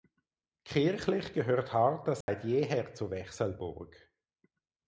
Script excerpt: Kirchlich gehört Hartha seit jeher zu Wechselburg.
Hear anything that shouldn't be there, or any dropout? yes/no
yes